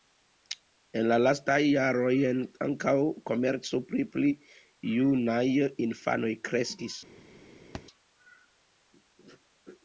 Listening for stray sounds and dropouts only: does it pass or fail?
fail